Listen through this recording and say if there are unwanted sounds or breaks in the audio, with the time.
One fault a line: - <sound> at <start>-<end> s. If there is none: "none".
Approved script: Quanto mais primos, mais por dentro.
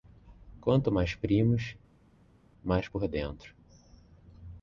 none